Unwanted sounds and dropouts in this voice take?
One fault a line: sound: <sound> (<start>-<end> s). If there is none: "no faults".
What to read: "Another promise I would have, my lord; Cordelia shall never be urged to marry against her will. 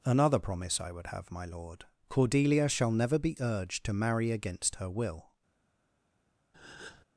sound: breath (6.5-7.1 s)